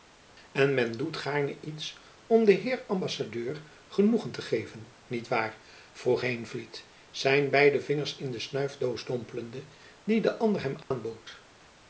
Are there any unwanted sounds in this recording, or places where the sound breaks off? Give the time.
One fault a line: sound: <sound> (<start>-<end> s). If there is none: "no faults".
sound: dropout (10.8-10.9 s)